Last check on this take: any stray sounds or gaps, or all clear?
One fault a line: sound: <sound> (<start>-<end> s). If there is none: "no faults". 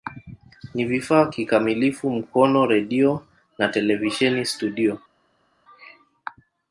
no faults